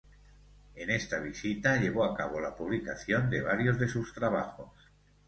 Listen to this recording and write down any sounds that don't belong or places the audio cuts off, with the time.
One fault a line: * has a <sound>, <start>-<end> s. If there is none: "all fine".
all fine